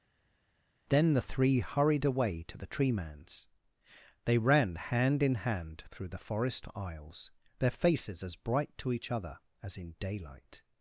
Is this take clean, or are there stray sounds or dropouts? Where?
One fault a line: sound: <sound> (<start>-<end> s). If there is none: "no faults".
no faults